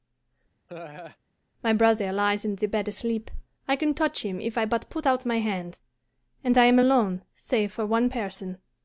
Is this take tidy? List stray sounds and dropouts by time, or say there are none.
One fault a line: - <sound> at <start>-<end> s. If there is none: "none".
- laugh at 0.7-1.2 s